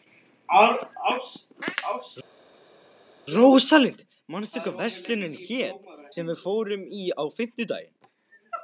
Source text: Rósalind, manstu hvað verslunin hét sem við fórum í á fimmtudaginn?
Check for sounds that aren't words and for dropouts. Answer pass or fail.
pass